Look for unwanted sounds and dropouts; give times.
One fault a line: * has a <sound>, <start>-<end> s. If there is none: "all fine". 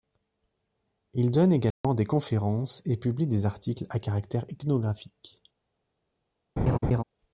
* has a dropout, 1.7-1.8 s
* has a laugh, 6.6-7.0 s